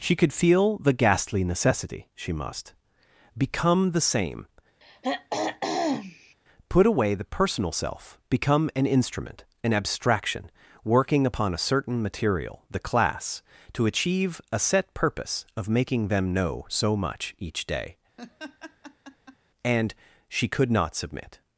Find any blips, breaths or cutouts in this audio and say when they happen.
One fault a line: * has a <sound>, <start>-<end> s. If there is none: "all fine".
* has a throat clearing, 4.8-6.3 s
* has a laugh, 18.2-19.4 s